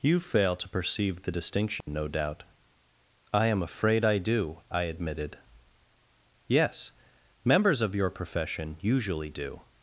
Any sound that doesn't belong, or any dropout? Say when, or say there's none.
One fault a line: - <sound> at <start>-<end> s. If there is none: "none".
- dropout at 1.8-1.9 s